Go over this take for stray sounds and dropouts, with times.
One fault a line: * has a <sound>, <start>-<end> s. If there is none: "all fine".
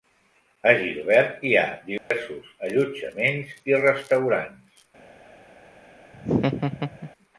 * has a dropout, 2.0-2.1 s
* has a laugh, 6.1-7.1 s